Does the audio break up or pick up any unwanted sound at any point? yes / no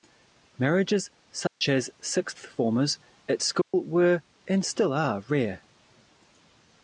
yes